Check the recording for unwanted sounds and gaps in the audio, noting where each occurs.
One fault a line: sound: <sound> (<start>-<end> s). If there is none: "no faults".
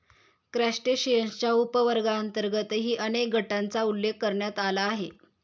no faults